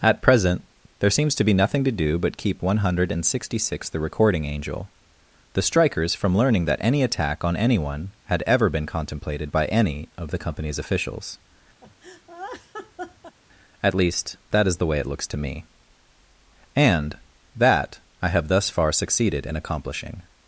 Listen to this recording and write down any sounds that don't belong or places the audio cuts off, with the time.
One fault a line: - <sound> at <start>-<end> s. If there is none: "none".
- laugh at 11.8-13.4 s